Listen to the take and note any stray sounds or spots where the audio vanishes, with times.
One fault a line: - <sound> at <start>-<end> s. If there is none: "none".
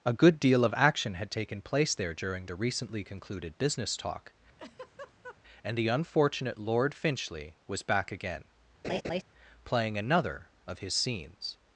- laugh at 4.6-5.4 s
- laugh at 8.8-9.2 s